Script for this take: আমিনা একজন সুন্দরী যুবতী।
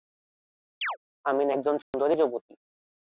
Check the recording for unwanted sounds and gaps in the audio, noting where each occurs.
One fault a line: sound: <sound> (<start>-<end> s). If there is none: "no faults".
sound: chirp (0.8-1.0 s)
sound: dropout (1.8-1.9 s)